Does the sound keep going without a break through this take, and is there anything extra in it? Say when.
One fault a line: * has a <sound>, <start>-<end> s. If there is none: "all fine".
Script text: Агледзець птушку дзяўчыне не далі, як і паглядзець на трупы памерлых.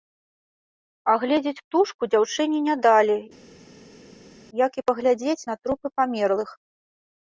all fine